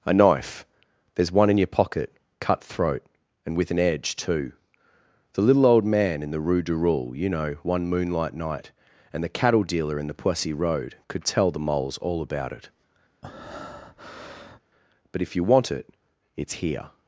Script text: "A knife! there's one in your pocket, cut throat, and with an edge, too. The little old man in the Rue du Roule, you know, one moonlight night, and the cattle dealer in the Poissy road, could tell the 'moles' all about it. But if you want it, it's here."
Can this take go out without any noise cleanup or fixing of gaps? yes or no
no